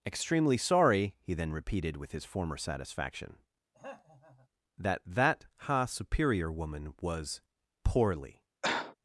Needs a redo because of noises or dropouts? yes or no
yes